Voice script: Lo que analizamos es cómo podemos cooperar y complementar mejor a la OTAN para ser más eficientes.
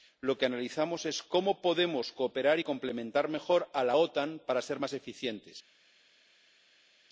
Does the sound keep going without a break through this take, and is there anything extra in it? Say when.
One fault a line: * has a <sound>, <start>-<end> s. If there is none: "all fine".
all fine